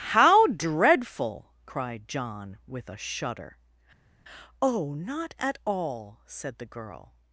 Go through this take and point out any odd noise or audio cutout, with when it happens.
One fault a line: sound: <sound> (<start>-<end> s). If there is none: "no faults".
no faults